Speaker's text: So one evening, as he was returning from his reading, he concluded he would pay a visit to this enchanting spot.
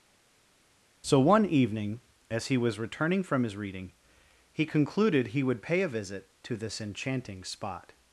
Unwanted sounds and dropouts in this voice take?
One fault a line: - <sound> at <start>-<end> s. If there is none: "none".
none